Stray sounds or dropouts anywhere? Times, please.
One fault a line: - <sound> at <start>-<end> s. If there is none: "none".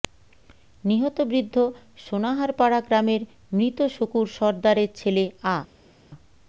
none